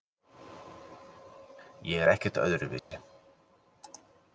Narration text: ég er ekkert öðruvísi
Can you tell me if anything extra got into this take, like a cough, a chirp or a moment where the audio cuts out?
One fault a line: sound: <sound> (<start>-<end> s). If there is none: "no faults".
sound: dropout (2.8-2.9 s)